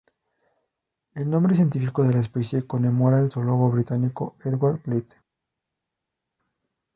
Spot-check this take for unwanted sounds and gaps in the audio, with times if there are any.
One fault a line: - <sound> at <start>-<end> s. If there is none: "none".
none